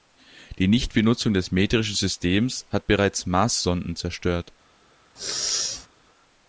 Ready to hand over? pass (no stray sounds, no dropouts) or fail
fail